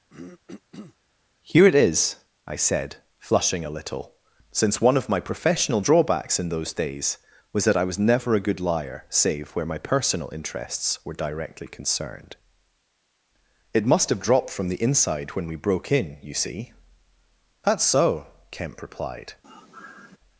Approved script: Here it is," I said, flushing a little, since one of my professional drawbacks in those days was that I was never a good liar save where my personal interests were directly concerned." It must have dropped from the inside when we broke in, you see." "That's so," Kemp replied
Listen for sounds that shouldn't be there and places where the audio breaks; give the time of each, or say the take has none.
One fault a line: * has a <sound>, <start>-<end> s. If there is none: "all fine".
* has a throat clearing, 0.1-1.0 s
* has a sigh, 19.4-20.2 s